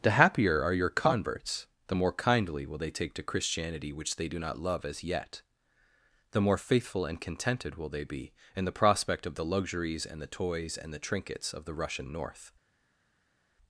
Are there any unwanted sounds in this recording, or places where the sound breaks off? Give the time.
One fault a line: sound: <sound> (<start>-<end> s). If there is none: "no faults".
no faults